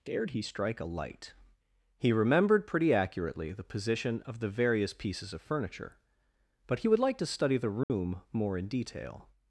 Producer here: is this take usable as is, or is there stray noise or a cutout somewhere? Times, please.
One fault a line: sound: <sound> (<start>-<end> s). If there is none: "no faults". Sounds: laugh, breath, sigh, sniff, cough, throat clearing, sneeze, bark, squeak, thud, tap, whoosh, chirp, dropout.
sound: dropout (7.8-7.9 s)